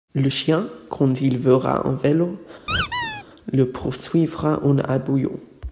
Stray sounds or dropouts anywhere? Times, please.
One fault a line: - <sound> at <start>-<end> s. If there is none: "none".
- squeak at 2.7-3.2 s